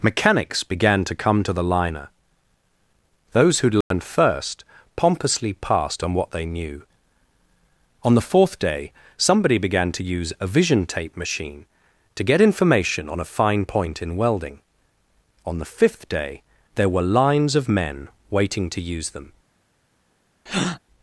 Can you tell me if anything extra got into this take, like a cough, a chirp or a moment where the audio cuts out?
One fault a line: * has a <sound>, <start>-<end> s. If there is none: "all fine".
* has a dropout, 3.8-3.9 s
* has a breath, 20.5-20.8 s